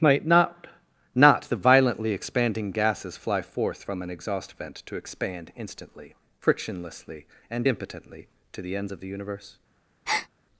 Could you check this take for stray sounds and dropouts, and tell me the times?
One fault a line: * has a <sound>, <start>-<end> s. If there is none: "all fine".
* has a breath, 10.1-10.3 s